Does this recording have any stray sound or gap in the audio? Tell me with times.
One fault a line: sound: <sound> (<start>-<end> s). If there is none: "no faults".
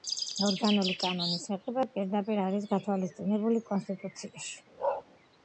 sound: bark (4.8-5.0 s)